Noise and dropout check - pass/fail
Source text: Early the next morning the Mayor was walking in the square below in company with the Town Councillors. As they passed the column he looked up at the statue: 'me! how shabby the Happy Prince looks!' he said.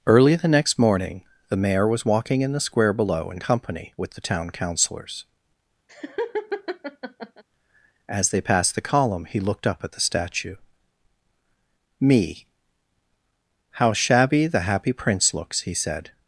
fail